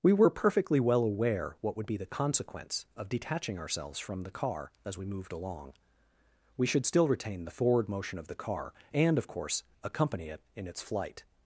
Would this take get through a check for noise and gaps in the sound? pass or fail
pass